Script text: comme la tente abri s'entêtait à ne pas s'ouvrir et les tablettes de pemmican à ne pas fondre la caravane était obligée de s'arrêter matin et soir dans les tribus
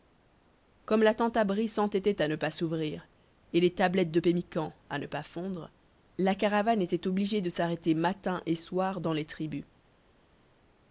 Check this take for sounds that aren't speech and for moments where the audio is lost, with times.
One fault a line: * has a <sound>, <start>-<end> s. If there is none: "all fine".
all fine